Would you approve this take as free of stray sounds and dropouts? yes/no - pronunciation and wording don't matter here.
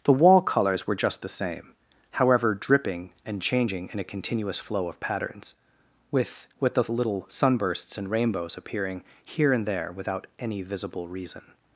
yes